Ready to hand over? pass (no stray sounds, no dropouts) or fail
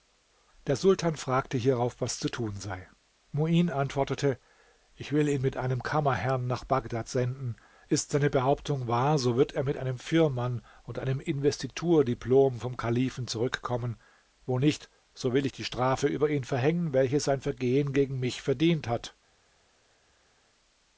pass